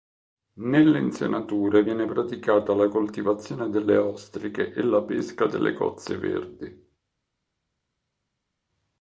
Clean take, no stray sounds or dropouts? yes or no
yes